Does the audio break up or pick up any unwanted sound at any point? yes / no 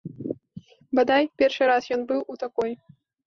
no